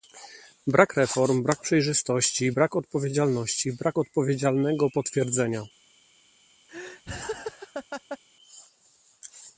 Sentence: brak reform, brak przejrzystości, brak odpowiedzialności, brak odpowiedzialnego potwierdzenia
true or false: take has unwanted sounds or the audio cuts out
true